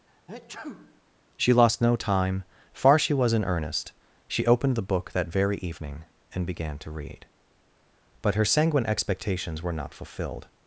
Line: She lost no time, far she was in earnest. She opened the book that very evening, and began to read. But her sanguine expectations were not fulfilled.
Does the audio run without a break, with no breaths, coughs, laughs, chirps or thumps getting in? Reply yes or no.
no